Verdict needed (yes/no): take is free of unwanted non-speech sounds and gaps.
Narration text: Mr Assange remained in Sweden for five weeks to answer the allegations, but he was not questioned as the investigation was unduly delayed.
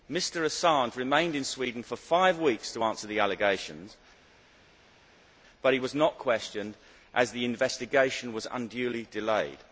yes